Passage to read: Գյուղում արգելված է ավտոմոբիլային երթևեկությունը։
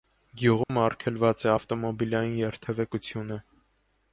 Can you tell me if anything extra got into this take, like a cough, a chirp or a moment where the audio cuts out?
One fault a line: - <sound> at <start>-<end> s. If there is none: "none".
- dropout at 0.6-0.7 s